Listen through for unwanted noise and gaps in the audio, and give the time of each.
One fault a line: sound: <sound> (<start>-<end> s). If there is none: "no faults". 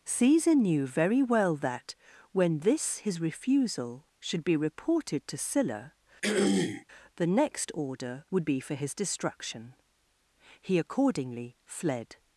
sound: throat clearing (6.2-6.9 s)